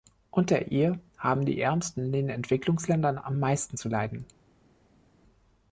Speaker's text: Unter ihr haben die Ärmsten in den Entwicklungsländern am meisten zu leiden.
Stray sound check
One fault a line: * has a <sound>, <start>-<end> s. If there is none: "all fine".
all fine